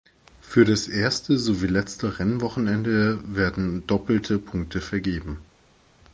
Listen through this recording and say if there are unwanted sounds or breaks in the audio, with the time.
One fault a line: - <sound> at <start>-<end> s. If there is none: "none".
none